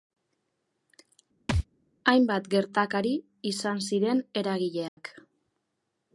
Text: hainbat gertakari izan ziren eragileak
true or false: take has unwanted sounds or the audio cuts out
true